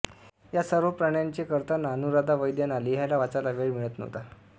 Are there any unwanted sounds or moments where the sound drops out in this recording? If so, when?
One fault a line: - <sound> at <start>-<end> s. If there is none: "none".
none